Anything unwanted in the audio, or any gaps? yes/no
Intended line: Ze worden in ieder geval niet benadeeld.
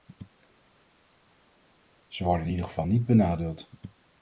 no